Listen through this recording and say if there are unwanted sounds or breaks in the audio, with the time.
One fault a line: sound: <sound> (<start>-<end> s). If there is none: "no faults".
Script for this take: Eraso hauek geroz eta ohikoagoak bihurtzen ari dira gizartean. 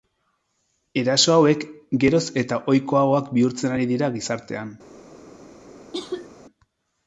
sound: cough (5.9-6.3 s)